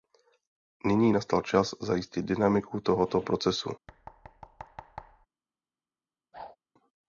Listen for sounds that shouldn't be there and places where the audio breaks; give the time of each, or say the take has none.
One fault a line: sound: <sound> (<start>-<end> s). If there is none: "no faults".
sound: thud (3.9-5.3 s)
sound: whoosh (6.3-6.6 s)